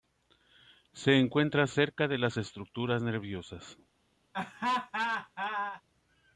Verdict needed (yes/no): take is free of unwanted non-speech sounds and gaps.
no